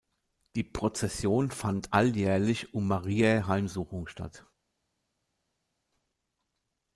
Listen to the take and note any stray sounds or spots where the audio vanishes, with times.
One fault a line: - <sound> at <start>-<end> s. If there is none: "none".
none